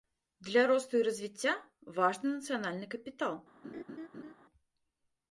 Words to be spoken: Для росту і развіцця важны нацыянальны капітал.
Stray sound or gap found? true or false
true